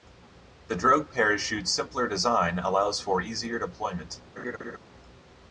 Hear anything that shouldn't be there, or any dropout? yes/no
yes